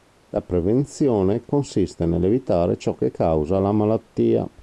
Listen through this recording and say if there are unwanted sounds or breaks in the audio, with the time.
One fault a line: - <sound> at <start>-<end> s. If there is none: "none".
none